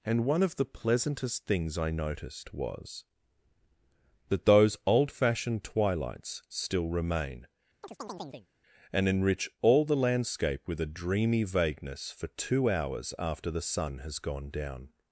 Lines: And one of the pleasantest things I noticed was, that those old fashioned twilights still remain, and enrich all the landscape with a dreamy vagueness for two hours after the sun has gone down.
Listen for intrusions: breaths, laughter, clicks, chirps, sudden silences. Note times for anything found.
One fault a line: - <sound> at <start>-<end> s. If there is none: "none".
- chirp at 7.8-8.5 s